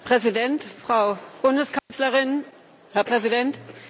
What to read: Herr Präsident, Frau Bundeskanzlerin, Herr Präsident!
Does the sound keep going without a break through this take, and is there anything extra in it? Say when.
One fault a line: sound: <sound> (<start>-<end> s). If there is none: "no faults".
sound: dropout (1.8-1.9 s)